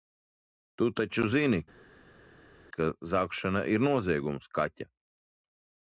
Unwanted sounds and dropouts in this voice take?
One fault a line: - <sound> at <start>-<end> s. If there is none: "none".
none